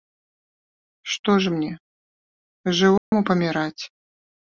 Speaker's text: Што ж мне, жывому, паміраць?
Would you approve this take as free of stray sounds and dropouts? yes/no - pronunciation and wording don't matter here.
no